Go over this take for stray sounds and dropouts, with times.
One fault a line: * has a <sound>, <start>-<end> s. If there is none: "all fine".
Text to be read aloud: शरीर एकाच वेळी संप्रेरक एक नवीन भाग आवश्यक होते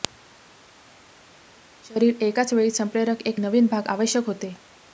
all fine